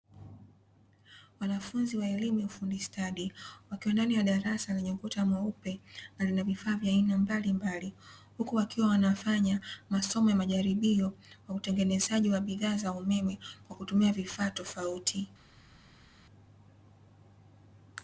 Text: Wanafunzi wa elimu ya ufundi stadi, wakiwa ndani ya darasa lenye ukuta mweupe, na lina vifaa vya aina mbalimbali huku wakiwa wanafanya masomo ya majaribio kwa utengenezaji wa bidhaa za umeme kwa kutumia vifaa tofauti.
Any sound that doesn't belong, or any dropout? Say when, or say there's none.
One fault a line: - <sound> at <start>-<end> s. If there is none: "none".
none